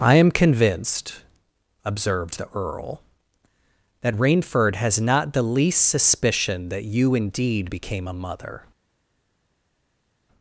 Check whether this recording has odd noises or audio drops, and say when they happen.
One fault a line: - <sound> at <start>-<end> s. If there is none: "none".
none